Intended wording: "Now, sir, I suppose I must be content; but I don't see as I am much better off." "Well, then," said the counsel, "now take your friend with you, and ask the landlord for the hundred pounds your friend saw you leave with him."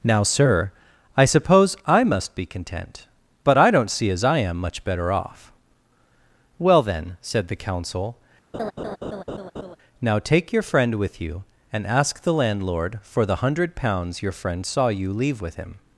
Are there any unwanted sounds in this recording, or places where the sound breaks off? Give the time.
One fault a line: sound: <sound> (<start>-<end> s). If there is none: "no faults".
sound: laugh (8.5-9.8 s)